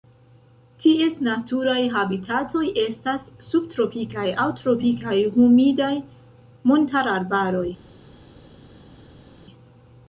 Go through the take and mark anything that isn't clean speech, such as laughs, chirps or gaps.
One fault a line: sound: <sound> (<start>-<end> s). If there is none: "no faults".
no faults